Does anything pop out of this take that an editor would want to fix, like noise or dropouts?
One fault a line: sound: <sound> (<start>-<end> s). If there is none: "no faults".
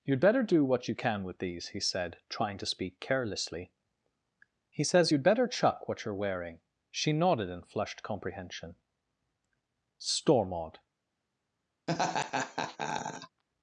sound: laugh (11.9-13.4 s)